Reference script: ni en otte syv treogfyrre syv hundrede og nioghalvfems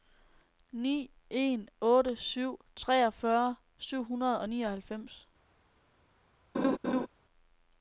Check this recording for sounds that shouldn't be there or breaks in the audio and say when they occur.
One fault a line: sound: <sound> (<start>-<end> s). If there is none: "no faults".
sound: laugh (6.5-7.1 s)